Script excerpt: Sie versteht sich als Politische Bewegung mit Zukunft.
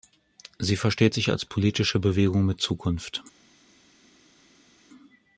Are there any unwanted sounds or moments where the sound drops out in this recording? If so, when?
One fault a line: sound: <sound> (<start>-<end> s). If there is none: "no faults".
no faults